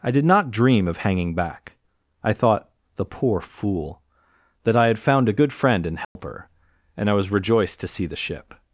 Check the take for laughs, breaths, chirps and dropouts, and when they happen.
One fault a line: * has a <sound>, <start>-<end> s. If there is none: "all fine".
* has a dropout, 6.0-6.2 s